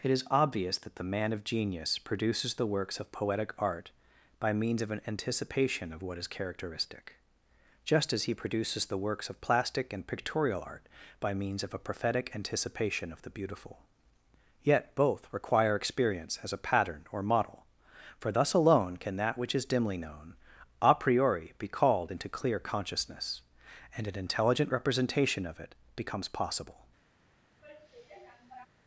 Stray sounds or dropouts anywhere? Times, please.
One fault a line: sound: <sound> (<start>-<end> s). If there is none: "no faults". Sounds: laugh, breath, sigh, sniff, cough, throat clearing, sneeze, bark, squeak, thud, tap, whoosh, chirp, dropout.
sound: sigh (27.6-28.7 s)